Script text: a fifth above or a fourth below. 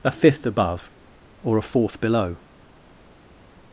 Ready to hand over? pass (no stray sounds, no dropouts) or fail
pass